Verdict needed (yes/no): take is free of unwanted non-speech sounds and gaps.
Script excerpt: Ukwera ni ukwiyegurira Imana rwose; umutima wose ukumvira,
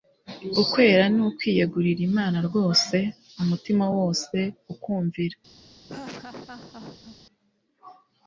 no